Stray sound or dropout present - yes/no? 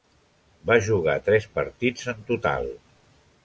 no